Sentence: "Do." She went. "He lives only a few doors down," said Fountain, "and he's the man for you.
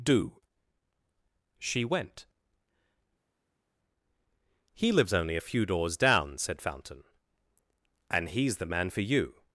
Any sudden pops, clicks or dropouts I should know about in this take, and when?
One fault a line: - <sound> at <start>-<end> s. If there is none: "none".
none